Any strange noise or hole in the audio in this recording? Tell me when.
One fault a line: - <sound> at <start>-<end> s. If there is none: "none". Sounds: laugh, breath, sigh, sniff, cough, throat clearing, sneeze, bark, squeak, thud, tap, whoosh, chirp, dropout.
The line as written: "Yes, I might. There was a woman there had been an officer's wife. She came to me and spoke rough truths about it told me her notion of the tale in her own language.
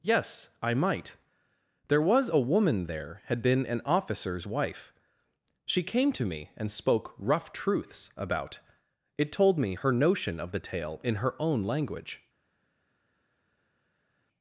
none